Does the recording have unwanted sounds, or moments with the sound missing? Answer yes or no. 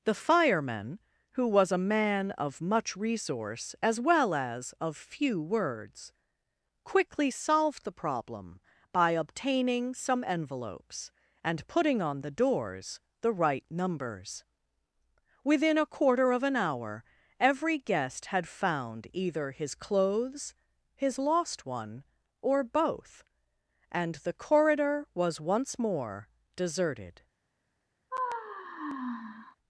yes